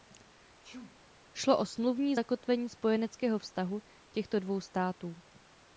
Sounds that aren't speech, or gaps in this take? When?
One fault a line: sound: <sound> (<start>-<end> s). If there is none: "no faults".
sound: sneeze (0.6-1.0 s)